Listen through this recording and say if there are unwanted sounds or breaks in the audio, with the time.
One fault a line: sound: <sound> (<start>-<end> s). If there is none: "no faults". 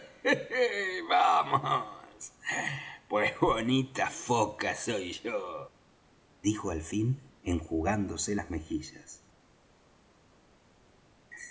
no faults